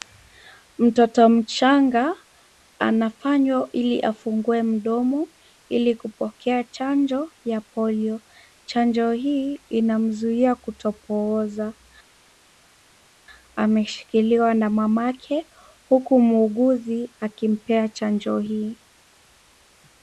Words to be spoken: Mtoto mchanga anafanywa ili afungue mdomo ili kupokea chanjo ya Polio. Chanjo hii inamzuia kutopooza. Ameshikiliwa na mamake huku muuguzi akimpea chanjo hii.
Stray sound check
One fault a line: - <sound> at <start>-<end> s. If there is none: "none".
none